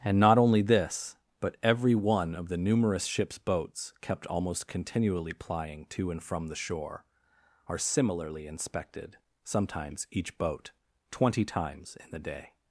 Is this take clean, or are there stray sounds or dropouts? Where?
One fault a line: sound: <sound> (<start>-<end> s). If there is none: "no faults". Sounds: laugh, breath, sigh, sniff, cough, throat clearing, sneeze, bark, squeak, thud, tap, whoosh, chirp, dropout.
no faults